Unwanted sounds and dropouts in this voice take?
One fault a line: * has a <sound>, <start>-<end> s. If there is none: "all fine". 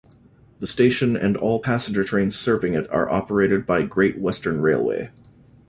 all fine